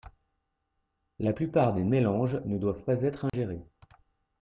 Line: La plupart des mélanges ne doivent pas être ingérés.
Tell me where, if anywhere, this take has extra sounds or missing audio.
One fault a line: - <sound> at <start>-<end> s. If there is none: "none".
- dropout at 3.3-3.3 s